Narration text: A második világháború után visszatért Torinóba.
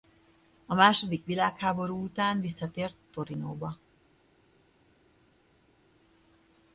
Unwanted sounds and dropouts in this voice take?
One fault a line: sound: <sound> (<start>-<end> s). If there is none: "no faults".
no faults